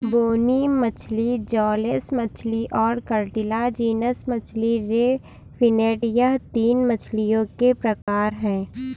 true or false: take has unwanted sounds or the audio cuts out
true